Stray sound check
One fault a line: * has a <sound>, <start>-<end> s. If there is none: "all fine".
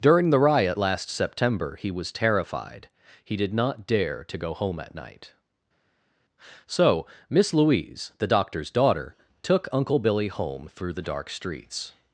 all fine